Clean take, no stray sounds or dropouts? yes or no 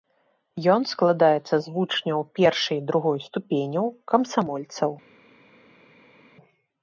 yes